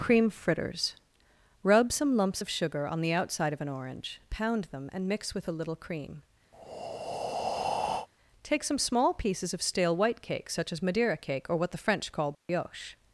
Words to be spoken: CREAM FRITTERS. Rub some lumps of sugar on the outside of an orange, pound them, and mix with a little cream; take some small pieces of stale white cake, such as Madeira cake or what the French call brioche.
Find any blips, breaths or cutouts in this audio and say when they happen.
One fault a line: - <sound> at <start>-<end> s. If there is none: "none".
- breath at 6.5-8.1 s
- dropout at 12.3-12.5 s